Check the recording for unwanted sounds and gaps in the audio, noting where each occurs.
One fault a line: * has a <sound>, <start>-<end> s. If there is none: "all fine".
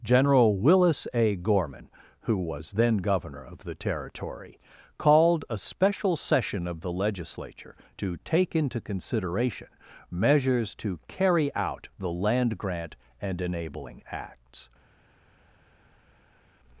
all fine